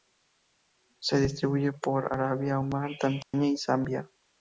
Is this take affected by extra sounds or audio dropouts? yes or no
yes